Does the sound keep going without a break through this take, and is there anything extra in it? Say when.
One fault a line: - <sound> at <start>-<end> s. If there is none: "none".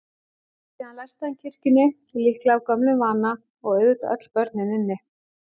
none